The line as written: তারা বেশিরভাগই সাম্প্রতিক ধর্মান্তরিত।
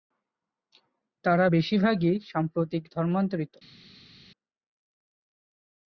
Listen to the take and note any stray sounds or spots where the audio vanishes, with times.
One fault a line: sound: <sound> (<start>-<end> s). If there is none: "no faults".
no faults